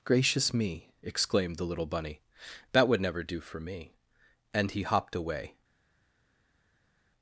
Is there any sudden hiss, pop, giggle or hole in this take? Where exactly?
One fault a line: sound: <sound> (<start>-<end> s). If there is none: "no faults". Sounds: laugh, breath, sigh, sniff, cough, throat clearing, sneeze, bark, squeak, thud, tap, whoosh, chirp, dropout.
no faults